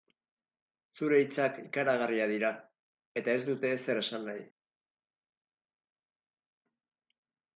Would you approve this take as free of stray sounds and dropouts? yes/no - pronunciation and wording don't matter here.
yes